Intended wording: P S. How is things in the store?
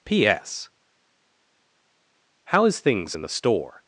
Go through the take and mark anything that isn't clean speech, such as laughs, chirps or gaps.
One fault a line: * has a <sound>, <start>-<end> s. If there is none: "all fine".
all fine